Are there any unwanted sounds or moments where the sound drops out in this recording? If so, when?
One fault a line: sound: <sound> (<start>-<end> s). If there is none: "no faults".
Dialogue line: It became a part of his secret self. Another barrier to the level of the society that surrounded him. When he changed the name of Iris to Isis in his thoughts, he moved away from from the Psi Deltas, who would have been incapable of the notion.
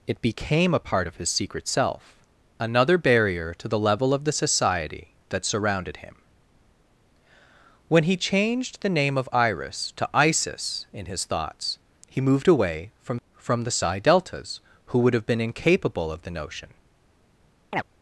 sound: chirp (17.7-17.8 s)